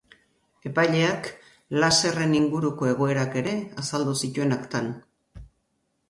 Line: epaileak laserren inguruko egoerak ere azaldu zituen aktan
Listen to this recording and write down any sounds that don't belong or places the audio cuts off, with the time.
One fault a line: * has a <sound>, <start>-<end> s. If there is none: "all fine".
all fine